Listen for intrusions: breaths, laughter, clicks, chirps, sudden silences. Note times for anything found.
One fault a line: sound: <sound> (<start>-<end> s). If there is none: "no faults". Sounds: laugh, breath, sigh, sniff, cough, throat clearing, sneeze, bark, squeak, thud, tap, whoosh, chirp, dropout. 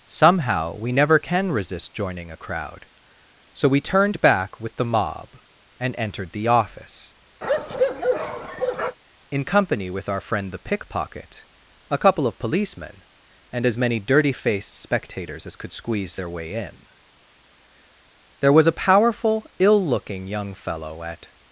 sound: bark (7.4-9.0 s)